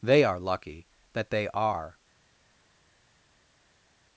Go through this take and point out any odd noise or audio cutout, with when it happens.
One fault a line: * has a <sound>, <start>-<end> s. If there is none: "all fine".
all fine